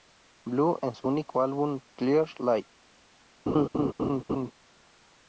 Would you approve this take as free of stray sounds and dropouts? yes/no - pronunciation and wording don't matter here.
no